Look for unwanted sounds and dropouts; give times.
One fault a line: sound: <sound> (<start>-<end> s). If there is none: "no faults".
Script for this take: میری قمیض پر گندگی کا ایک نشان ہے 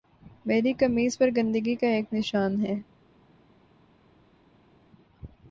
no faults